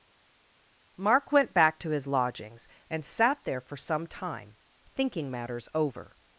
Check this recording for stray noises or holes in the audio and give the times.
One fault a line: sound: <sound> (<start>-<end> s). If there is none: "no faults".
no faults